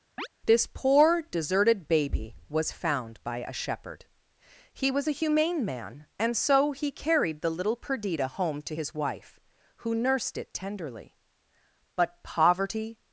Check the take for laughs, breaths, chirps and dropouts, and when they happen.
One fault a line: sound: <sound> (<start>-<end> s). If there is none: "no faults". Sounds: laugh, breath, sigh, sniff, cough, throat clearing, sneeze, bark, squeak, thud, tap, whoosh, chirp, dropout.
sound: chirp (0.2-0.3 s)